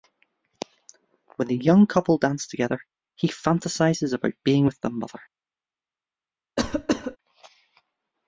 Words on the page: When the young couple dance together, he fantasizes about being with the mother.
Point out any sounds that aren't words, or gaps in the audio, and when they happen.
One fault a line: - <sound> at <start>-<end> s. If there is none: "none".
- cough at 6.6-7.2 s